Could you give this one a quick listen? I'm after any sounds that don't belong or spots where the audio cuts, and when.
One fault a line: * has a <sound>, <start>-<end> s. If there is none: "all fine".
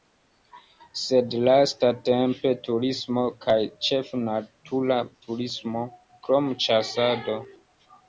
all fine